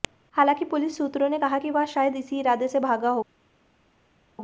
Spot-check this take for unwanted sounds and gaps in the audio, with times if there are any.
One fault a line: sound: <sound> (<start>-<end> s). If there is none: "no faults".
no faults